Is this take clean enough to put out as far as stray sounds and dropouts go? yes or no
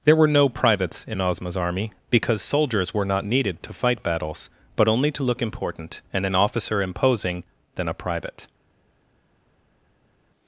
yes